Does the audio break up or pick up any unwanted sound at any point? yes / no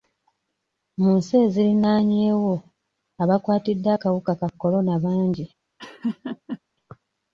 yes